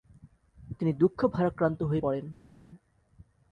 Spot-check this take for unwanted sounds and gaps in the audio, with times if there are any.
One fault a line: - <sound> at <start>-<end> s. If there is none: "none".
none